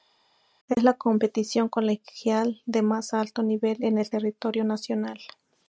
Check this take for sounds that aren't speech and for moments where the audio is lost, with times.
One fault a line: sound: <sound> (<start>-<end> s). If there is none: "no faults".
no faults